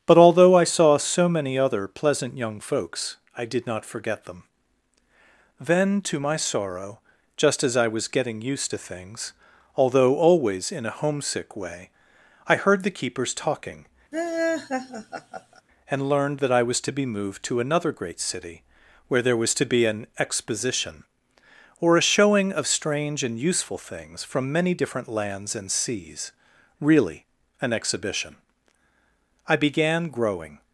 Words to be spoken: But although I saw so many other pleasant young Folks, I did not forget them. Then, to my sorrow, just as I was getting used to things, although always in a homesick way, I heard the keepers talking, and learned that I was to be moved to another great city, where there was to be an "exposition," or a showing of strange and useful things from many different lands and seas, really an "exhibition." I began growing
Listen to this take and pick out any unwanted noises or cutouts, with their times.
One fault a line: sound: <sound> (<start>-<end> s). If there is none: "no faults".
sound: laugh (14.1-15.6 s)